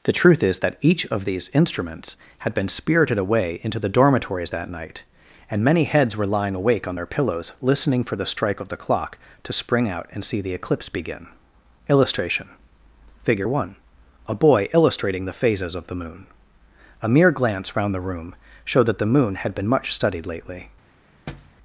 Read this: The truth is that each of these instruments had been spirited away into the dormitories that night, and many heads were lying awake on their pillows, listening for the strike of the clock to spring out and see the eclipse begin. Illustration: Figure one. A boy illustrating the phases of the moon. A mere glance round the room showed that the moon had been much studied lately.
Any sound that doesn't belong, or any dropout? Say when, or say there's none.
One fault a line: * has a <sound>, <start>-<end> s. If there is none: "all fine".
* has a thud, 21.3-21.6 s